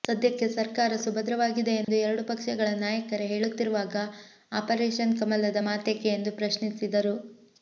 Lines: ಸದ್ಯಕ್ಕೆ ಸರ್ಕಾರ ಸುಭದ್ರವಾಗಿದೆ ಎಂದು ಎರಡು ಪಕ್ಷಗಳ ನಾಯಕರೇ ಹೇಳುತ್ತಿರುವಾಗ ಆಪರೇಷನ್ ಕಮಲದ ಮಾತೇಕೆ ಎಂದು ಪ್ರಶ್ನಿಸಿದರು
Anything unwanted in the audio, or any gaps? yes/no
yes